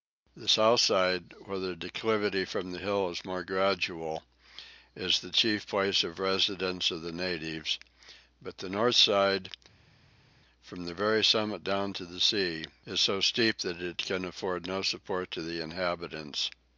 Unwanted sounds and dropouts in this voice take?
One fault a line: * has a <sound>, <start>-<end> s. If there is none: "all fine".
all fine